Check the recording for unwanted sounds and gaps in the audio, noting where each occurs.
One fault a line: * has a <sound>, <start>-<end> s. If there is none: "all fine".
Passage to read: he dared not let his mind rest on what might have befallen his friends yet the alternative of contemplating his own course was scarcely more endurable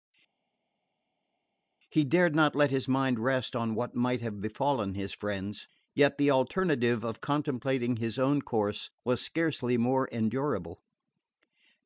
all fine